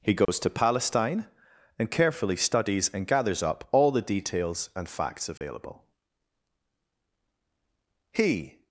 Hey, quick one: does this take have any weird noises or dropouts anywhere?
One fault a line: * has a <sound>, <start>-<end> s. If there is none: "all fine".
* has a dropout, 0.3-0.3 s
* has a dropout, 5.4-5.4 s